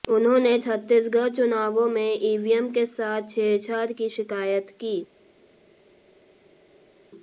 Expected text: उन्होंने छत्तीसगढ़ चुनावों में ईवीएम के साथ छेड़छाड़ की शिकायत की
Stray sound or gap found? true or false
false